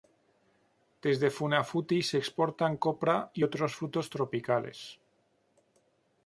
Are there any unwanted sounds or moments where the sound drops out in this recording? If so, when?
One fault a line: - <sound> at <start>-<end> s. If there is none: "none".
none